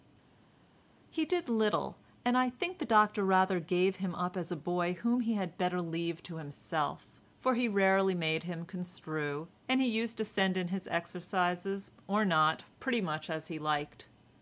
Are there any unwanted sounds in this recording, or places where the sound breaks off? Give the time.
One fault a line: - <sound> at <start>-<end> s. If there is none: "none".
none